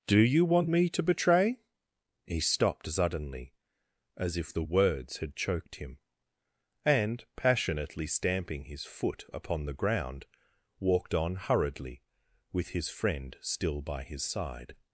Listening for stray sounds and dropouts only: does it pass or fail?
pass